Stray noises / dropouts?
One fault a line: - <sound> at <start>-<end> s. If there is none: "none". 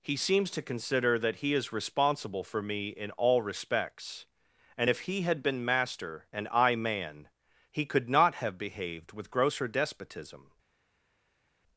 none